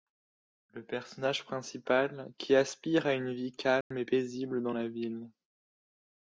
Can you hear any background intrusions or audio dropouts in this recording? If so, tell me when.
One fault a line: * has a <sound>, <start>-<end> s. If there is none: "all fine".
* has a dropout, 3.8-3.9 s